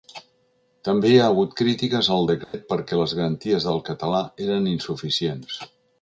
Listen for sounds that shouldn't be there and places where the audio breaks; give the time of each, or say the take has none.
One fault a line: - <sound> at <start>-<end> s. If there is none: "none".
- dropout at 2.4-2.5 s